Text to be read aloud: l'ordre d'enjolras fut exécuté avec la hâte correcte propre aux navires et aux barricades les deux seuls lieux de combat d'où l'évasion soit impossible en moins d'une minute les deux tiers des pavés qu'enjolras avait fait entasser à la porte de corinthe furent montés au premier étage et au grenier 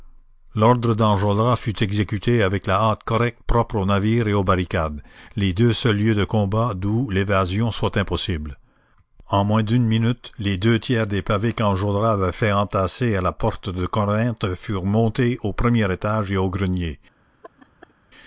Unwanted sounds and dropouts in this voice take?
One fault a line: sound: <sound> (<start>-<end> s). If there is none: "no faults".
sound: laugh (17.4-17.9 s)